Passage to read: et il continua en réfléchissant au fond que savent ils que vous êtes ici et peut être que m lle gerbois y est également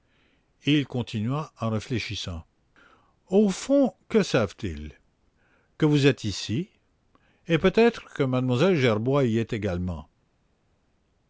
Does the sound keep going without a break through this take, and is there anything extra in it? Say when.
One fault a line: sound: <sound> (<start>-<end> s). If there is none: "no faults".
no faults